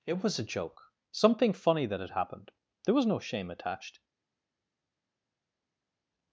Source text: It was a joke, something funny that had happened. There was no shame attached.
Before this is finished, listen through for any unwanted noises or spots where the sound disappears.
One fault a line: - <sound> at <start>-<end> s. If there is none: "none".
none